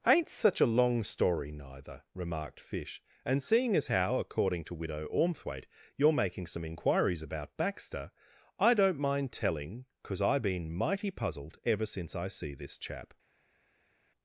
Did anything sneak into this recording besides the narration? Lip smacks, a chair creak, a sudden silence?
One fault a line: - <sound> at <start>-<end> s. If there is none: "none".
none